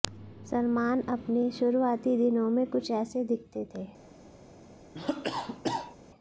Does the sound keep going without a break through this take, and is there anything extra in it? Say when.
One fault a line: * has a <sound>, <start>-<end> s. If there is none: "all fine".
* has a cough, 4.9-6.0 s